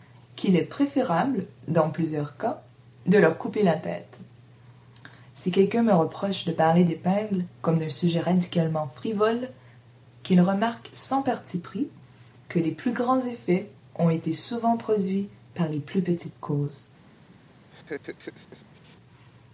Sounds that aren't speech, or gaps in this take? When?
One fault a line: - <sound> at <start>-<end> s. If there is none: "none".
- laugh at 17.7-19.0 s